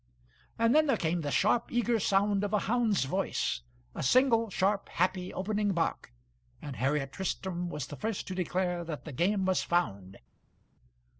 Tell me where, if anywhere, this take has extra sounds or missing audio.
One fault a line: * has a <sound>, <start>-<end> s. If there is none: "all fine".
all fine